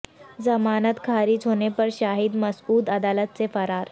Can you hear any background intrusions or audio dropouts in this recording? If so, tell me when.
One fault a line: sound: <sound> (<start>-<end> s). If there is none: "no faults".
no faults